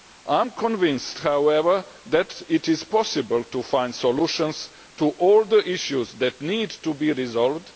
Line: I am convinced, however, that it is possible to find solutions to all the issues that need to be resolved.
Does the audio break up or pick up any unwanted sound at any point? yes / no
no